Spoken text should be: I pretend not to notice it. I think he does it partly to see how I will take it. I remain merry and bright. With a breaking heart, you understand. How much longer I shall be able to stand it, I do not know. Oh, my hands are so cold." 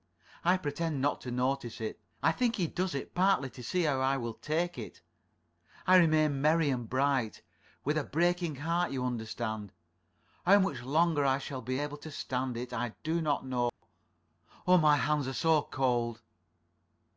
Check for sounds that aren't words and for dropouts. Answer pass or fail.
fail